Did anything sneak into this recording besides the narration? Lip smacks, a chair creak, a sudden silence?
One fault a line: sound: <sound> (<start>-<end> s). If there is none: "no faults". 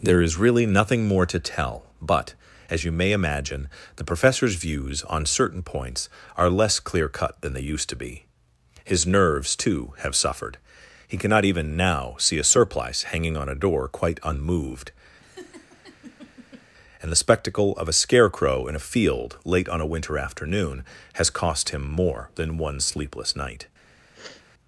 sound: laugh (15.2-16.7 s)
sound: sniff (24.1-24.4 s)